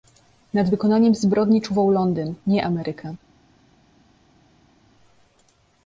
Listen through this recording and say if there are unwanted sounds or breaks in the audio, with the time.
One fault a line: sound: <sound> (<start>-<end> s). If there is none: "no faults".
no faults